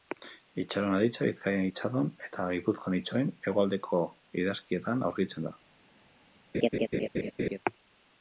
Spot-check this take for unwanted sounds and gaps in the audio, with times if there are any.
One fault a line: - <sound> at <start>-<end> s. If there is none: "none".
- laugh at 6.5-7.6 s